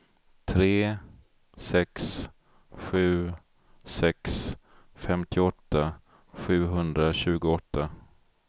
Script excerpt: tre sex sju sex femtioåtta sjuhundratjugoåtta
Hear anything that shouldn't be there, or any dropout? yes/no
no